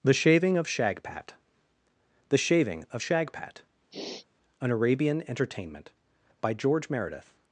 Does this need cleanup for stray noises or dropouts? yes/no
yes